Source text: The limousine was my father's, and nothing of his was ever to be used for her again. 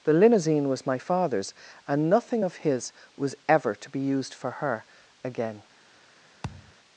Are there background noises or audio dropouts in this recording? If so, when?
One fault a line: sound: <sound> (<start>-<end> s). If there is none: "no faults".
sound: thud (6.4-6.7 s)